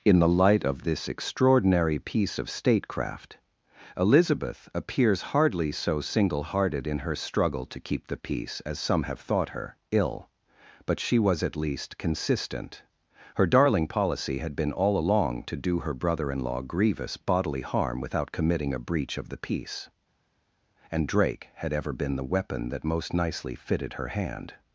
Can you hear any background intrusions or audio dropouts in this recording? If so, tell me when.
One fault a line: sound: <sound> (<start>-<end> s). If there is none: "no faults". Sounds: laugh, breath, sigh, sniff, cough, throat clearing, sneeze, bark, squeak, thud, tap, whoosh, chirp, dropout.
no faults